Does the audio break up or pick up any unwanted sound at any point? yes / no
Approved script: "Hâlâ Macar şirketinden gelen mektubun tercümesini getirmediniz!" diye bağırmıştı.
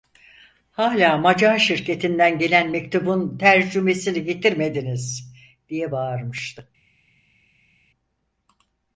no